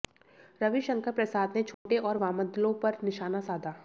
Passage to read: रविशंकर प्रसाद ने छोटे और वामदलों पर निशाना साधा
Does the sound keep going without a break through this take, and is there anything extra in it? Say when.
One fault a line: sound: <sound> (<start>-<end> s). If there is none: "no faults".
sound: dropout (1.7-1.9 s)